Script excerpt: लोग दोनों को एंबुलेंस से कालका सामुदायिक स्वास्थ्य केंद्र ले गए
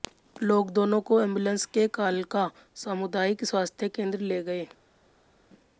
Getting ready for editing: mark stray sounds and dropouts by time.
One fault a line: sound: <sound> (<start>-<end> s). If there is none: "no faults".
no faults